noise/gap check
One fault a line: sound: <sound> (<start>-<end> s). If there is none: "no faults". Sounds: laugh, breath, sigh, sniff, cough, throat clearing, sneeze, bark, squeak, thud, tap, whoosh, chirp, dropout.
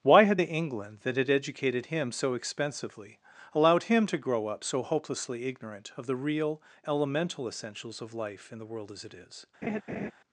sound: laugh (9.6-10.1 s)